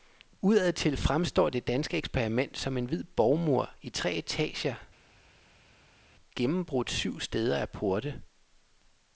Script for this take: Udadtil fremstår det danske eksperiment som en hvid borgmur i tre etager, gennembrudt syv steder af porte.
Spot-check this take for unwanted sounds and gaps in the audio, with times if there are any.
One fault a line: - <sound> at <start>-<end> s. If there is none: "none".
none